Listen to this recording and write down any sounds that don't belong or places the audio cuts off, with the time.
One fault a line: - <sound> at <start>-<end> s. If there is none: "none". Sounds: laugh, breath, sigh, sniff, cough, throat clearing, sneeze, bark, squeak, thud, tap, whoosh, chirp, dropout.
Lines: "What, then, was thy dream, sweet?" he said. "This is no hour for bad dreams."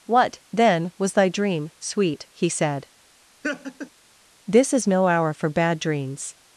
- laugh at 3.4-3.9 s